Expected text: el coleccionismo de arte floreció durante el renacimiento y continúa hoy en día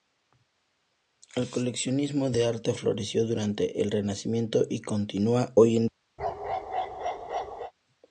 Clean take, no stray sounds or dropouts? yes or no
no